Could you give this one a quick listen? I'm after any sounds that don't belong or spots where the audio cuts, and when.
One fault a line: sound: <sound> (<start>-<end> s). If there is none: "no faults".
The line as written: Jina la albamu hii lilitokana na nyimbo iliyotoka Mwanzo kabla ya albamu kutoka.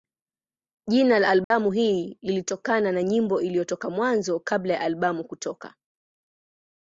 sound: dropout (1.4-1.5 s)